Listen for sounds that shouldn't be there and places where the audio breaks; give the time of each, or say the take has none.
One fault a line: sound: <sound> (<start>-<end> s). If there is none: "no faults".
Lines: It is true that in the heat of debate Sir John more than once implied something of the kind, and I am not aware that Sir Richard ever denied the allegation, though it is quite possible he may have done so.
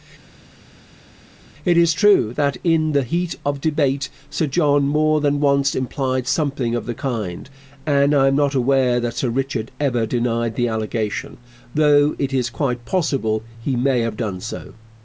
no faults